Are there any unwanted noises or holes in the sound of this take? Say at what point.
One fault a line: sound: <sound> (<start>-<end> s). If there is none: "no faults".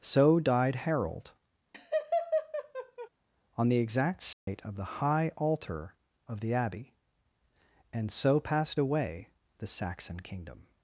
sound: laugh (1.7-3.1 s)
sound: dropout (4.3-4.5 s)